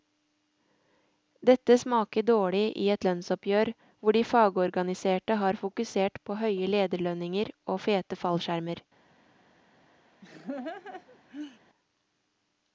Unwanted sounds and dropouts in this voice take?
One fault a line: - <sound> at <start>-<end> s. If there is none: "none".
- laugh at 10.2-11.6 s